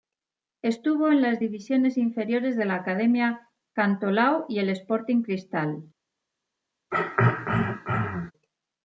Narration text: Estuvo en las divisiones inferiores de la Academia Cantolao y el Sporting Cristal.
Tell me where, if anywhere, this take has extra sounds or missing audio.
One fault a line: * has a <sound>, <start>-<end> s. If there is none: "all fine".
* has a throat clearing, 6.9-8.3 s